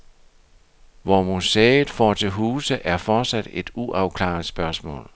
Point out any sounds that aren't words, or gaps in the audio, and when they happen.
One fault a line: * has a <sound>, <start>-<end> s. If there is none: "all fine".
all fine